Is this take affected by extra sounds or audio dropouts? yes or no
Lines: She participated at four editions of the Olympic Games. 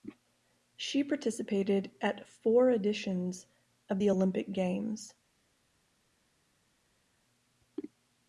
no